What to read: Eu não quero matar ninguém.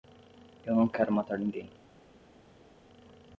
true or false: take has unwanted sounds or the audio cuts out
false